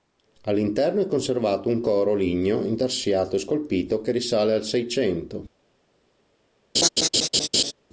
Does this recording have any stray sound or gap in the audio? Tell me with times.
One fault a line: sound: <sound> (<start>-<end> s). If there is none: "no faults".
sound: laugh (6.7-7.7 s)